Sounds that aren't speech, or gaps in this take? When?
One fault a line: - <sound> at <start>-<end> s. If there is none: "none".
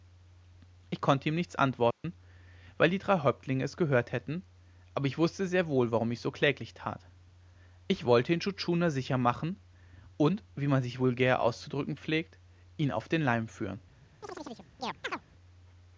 - dropout at 1.9-2.0 s
- chirp at 14.2-15.2 s